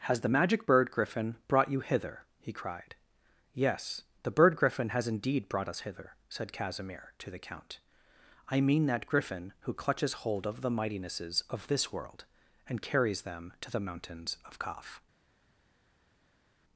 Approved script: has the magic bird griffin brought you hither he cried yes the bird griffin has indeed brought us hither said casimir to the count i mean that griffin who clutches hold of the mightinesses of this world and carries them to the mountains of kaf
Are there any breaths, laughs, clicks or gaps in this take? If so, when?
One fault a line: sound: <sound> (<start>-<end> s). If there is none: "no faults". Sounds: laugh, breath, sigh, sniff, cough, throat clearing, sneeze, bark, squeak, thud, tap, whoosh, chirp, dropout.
no faults